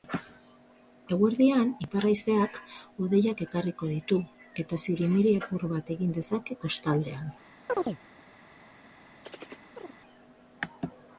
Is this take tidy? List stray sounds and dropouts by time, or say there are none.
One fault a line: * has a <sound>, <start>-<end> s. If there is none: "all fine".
* has a chirp, 7.7-8.0 s
* has a chirp, 9.2-10.0 s